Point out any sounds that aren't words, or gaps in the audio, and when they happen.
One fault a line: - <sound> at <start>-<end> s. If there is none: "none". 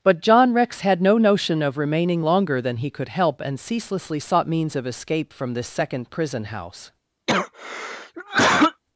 - cough at 7.3-8.8 s